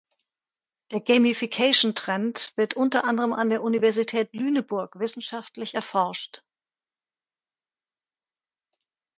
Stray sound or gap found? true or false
false